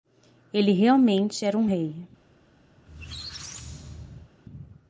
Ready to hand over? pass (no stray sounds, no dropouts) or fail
fail